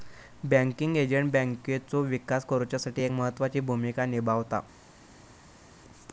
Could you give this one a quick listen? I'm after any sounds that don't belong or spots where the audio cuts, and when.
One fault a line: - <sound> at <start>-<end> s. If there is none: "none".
none